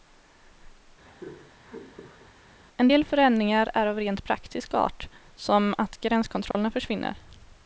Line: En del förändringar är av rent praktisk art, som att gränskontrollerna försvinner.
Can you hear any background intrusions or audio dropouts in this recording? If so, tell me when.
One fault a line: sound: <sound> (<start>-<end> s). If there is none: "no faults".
sound: laugh (1.0-2.3 s)
sound: dropout (6.5-6.5 s)